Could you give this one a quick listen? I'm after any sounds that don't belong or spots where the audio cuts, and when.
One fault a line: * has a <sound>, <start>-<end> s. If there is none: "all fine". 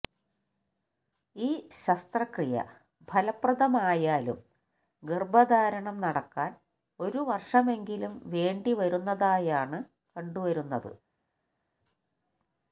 all fine